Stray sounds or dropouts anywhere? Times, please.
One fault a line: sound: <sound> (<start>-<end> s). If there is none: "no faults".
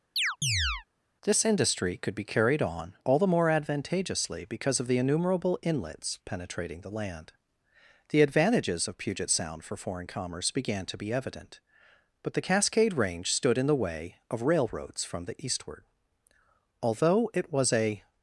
sound: chirp (0.2-0.8 s)